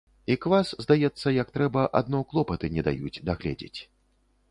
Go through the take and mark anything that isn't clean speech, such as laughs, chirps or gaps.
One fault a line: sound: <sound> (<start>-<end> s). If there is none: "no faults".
no faults